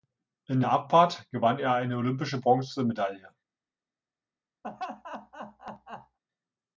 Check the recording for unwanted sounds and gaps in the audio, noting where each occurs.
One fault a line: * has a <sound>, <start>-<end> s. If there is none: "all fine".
* has a laugh, 4.6-6.2 s